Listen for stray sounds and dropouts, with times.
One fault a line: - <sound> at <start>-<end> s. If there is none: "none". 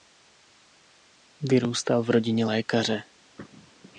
none